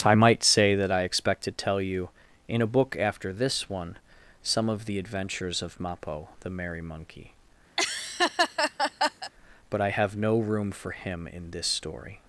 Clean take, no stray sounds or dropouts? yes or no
no